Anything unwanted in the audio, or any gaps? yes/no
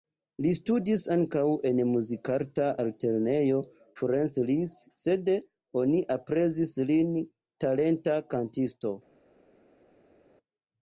no